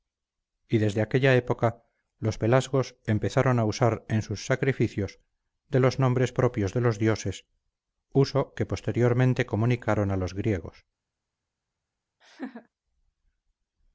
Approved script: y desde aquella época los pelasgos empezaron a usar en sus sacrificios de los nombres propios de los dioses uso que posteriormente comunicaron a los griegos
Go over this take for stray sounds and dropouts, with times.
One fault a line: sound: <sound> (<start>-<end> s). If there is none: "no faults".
sound: laugh (12.2-12.7 s)